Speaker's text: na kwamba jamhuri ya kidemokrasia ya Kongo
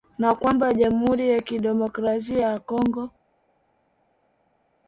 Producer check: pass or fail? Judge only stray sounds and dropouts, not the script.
pass